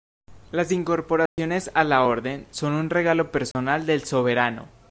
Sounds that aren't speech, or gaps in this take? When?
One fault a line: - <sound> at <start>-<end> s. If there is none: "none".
- dropout at 1.3-1.4 s
- dropout at 3.5-3.5 s